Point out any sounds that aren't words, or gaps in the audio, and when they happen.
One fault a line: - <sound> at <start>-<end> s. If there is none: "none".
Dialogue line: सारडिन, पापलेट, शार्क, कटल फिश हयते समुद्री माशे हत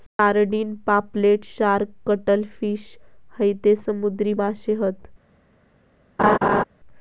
- dropout at 0.1-0.2 s
- laugh at 6.2-6.6 s